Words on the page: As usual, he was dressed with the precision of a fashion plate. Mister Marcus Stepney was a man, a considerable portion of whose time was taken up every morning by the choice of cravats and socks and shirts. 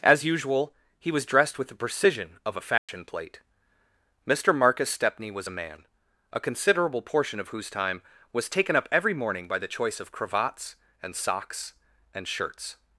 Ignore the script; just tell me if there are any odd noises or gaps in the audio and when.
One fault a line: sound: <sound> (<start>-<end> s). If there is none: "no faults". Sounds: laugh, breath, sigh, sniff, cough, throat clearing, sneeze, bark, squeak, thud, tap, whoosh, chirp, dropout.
sound: dropout (2.8-2.9 s)